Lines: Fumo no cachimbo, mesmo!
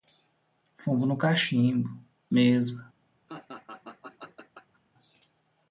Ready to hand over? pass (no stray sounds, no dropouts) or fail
fail